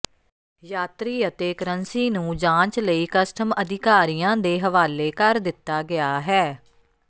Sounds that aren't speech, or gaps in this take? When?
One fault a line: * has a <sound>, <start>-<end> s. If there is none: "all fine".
all fine